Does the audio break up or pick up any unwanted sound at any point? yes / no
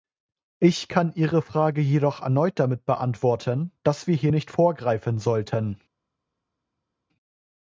no